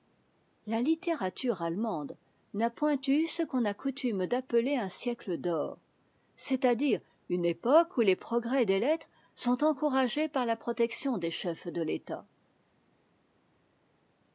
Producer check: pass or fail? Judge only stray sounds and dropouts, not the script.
pass